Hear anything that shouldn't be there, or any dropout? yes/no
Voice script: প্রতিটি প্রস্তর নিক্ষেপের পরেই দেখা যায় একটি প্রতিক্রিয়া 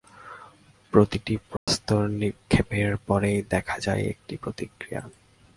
yes